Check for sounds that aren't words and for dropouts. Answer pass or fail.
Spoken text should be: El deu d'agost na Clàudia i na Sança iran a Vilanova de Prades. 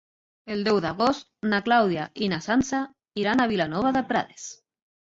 pass